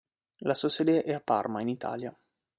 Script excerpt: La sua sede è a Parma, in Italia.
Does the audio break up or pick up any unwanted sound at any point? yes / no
no